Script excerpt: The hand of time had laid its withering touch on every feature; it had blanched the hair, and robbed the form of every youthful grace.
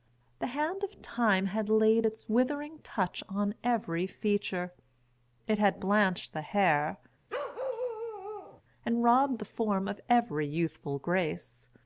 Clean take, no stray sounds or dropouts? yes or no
no